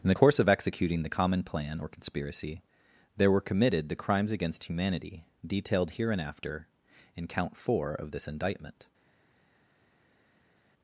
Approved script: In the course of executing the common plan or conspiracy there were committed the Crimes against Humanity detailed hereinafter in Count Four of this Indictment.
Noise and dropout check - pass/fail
pass